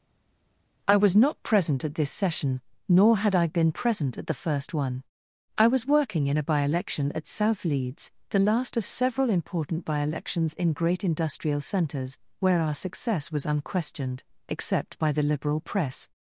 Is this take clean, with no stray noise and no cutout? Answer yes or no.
yes